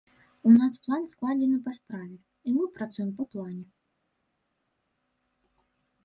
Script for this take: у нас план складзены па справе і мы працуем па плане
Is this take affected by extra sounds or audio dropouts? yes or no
no